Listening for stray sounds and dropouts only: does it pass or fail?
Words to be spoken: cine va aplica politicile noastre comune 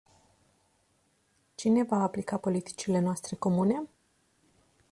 pass